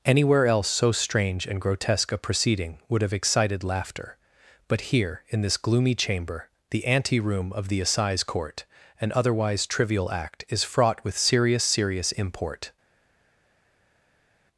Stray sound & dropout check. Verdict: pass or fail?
pass